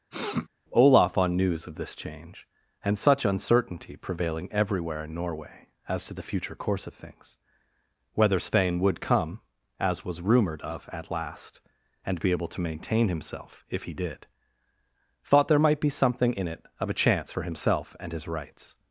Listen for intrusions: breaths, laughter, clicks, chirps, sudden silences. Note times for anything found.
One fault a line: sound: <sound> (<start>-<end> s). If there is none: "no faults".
sound: sniff (0.1-0.5 s)